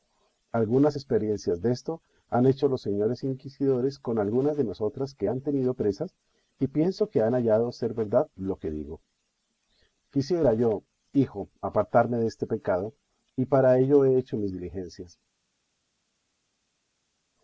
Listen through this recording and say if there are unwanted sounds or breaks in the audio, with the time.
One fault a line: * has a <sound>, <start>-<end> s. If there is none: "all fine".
all fine